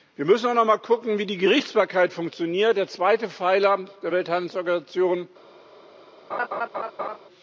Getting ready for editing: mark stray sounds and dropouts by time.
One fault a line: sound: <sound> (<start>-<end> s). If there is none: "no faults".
sound: laugh (6.3-7.2 s)